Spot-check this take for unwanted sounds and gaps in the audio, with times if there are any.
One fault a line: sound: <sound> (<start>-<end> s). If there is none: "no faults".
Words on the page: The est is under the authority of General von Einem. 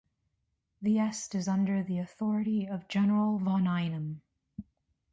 no faults